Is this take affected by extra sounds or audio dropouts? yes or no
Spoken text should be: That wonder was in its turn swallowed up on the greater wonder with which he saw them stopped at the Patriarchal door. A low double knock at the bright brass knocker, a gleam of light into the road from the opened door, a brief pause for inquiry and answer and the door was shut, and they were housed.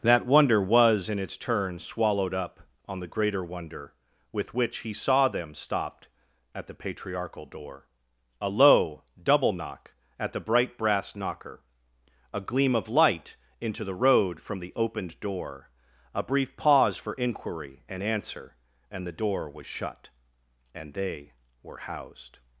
no